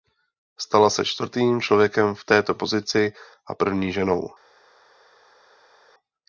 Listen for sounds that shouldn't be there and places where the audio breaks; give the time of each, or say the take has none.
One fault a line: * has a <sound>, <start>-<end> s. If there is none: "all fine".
all fine